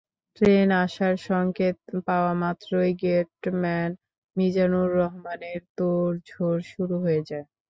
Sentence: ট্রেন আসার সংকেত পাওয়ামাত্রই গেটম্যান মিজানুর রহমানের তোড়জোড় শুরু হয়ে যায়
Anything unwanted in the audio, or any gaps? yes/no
no